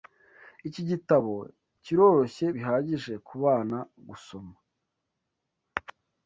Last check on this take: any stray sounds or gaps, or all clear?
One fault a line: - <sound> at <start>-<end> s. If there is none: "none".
none